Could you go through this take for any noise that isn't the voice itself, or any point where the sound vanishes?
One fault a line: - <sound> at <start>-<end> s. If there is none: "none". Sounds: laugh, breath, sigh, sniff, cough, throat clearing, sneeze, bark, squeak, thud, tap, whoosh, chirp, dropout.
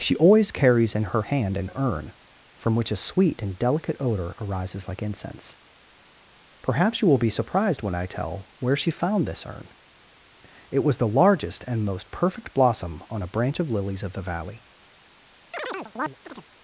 - chirp at 15.5-16.5 s